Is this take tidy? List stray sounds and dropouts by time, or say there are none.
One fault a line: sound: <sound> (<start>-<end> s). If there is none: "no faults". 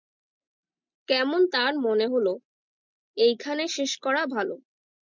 no faults